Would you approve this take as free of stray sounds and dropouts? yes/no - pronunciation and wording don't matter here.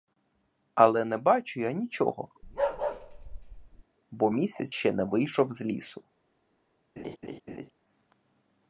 no